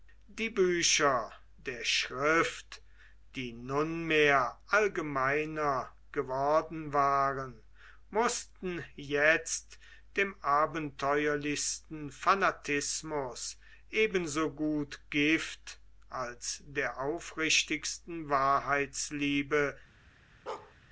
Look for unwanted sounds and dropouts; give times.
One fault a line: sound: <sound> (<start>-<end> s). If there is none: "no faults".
sound: bark (20.5-20.7 s)